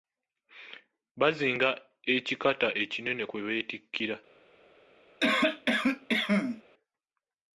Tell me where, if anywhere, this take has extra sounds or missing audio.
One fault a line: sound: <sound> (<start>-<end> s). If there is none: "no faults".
sound: cough (5.2-6.6 s)